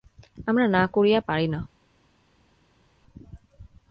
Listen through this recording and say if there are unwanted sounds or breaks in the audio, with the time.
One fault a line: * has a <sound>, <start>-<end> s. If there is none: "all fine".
all fine